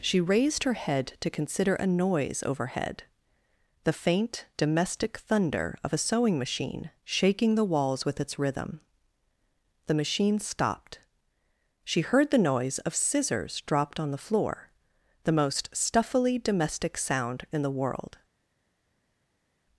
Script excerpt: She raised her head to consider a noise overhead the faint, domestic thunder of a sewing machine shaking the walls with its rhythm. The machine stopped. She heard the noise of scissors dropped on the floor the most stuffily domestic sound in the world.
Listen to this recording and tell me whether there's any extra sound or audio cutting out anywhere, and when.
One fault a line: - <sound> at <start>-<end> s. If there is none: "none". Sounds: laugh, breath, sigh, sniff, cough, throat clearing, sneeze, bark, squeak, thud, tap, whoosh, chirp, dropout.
none